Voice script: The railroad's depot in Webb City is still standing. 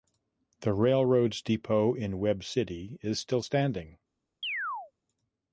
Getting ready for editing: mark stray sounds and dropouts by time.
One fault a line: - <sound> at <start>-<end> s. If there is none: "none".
- chirp at 4.4-4.9 s